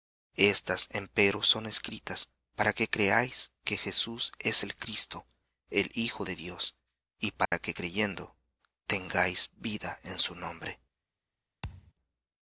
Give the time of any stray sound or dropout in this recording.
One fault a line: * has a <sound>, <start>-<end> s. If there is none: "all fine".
* has a dropout, 7.5-7.5 s
* has a thud, 11.6-11.9 s